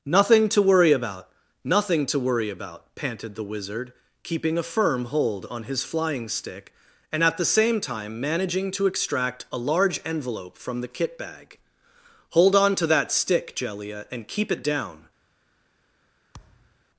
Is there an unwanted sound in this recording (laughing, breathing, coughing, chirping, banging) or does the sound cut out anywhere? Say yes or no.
yes